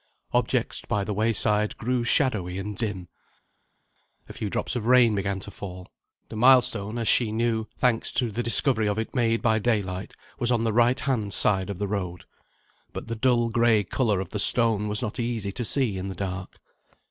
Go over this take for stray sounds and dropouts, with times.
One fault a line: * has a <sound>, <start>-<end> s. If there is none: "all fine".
all fine